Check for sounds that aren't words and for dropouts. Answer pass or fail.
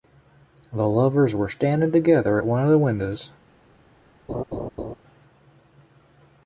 fail